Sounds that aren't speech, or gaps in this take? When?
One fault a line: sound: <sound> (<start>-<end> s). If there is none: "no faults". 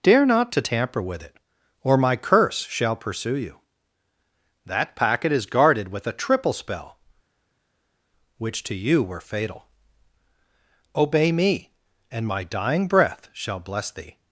no faults